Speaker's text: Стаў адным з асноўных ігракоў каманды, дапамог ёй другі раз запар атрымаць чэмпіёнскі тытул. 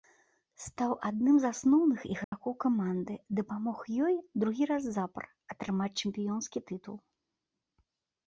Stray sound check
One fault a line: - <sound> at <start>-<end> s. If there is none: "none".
- dropout at 2.2-2.3 s